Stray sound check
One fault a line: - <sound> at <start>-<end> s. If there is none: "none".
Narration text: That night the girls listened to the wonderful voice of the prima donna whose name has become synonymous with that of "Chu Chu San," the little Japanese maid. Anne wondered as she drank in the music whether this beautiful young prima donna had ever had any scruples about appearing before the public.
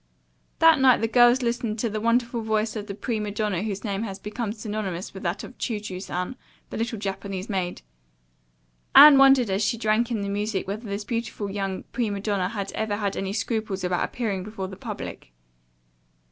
none